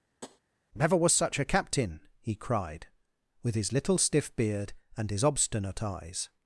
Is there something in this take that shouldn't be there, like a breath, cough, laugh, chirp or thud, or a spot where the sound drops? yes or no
yes